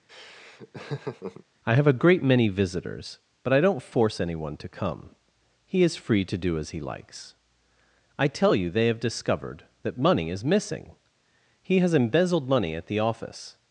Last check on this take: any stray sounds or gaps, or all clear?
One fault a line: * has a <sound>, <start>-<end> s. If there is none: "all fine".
* has a laugh, 0.1-1.4 s